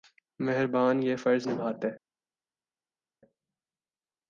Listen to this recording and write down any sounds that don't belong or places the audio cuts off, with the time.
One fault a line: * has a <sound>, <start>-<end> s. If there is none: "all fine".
all fine